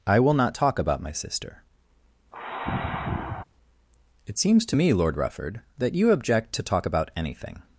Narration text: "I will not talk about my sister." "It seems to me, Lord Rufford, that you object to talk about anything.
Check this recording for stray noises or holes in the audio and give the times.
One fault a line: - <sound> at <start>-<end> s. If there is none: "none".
- sigh at 2.3-3.4 s